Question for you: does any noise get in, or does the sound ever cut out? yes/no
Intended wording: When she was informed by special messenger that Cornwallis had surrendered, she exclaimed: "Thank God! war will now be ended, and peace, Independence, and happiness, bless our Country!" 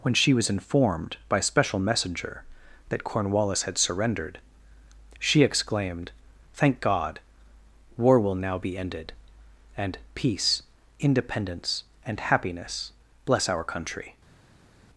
no